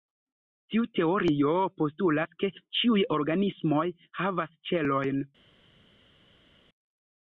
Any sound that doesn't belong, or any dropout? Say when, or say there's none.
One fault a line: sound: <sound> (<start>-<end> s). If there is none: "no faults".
no faults